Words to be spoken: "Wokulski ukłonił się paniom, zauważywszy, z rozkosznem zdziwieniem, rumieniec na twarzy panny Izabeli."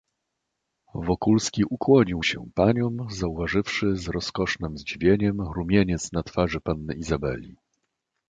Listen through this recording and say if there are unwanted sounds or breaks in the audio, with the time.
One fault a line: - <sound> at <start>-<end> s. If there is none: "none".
none